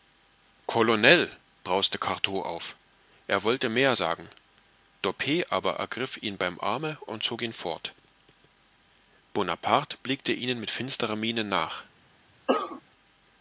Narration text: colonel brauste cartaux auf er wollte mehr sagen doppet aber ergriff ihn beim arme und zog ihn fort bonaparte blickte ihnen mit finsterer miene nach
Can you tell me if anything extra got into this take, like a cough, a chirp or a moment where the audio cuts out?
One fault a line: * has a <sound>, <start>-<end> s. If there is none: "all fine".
* has a cough, 12.5-12.8 s